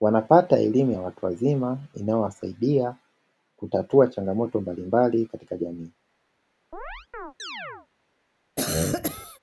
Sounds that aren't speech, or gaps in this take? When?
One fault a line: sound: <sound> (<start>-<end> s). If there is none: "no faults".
sound: chirp (6.7-7.9 s)
sound: cough (8.6-9.4 s)